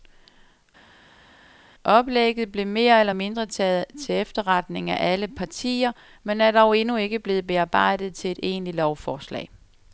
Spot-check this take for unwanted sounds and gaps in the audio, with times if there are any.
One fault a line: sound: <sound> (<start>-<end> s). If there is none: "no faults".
no faults